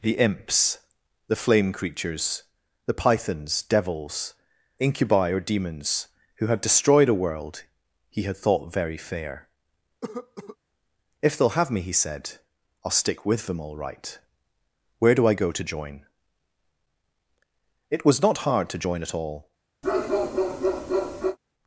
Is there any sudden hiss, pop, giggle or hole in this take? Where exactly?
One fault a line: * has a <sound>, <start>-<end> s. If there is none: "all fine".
* has a cough, 10.0-10.6 s
* has a bark, 19.8-21.4 s